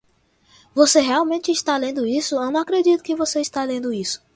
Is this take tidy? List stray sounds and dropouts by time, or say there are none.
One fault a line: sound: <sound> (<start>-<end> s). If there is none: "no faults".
no faults